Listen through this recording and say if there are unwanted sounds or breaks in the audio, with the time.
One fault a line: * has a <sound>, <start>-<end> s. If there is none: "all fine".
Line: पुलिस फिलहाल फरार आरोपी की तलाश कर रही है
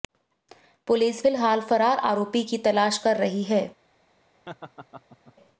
* has a laugh, 4.5-5.3 s